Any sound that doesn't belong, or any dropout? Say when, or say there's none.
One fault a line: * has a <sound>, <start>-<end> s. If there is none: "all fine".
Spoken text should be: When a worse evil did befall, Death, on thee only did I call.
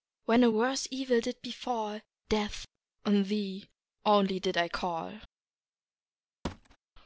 * has a thud, 6.4-6.8 s